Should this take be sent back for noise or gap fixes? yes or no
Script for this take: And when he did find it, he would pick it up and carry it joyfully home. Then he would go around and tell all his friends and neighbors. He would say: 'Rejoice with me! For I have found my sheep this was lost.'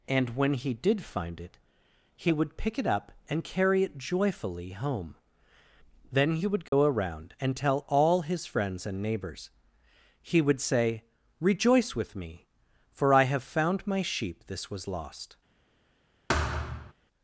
yes